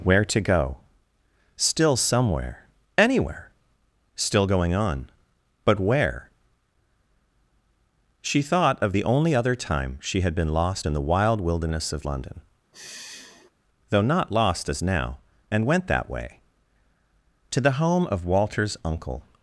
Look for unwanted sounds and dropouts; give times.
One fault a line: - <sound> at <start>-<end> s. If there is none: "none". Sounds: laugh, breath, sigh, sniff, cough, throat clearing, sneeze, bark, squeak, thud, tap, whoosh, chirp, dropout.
- sigh at 12.7-13.5 s